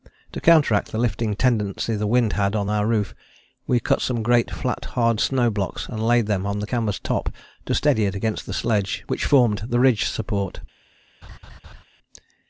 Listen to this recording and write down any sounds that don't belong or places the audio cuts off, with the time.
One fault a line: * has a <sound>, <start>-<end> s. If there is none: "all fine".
* has a laugh, 11.2-11.8 s